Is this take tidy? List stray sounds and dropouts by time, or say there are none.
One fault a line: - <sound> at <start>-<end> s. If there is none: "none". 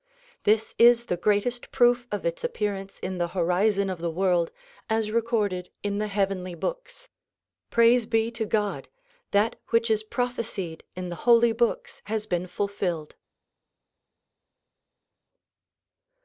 none